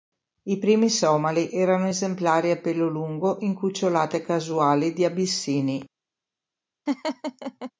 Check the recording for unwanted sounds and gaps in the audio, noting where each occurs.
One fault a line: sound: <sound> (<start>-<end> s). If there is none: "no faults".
sound: laugh (6.9-7.7 s)